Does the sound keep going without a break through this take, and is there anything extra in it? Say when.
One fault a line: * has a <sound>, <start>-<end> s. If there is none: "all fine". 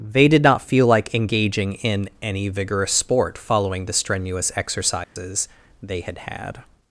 * has a dropout, 5.0-5.2 s